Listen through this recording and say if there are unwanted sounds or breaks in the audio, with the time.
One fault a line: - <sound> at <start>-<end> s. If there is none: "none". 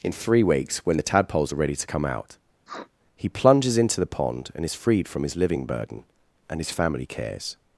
- sniff at 2.7-2.9 s